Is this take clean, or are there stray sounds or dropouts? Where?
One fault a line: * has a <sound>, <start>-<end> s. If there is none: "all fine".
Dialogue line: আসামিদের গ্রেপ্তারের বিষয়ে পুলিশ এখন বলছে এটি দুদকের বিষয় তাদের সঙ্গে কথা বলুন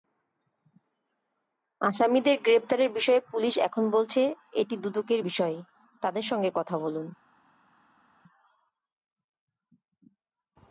all fine